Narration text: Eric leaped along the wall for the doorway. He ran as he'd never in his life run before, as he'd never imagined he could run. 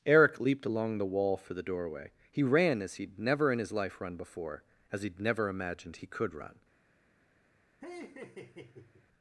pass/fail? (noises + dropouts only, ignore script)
fail